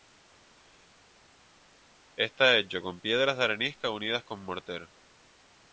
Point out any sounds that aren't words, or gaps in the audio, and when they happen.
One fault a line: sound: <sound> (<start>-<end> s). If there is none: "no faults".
no faults